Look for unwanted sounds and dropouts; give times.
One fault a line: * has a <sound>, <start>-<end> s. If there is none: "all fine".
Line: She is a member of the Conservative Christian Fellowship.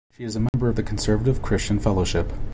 * has a dropout, 0.5-0.5 s